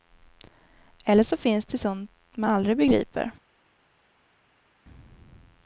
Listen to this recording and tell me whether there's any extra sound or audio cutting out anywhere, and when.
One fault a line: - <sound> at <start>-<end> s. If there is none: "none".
none